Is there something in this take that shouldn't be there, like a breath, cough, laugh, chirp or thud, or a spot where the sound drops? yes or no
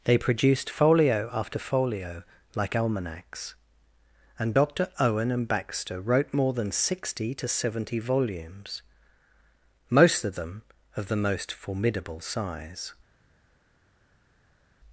no